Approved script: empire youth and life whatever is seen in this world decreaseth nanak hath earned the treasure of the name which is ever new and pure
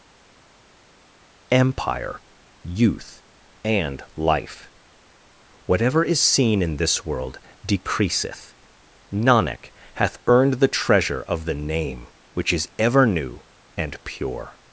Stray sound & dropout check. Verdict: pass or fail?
pass